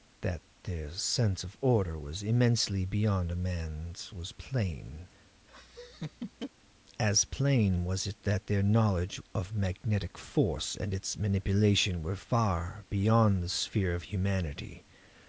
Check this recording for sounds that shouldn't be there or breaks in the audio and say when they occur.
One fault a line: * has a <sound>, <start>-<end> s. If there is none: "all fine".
* has a laugh, 5.5-6.5 s